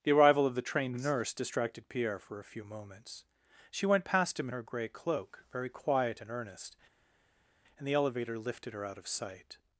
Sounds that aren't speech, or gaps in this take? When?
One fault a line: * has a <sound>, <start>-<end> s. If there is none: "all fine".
all fine